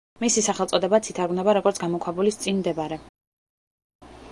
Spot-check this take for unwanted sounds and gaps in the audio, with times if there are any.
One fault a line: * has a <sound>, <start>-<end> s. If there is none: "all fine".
all fine